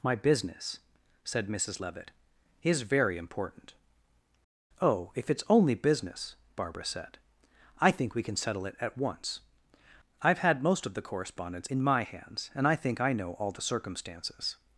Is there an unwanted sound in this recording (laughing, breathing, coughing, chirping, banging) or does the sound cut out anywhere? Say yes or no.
no